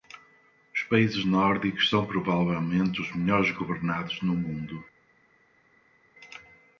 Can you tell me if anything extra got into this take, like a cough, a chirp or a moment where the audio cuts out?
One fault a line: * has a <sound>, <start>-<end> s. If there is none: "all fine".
all fine